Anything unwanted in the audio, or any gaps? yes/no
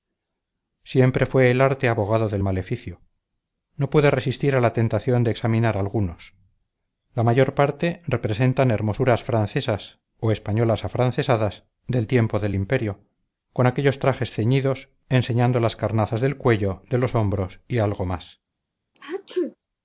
yes